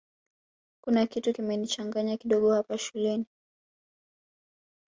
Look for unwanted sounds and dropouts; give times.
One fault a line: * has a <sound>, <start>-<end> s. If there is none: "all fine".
all fine